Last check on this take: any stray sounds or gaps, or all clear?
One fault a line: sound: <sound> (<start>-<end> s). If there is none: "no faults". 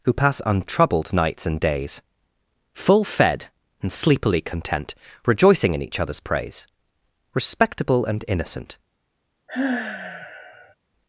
sound: sigh (9.5-10.8 s)